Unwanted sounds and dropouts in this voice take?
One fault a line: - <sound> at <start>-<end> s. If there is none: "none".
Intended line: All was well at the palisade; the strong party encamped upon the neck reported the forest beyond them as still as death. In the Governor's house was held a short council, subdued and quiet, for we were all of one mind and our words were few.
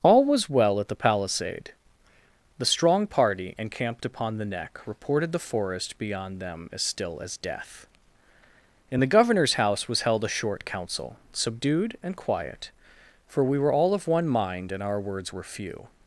none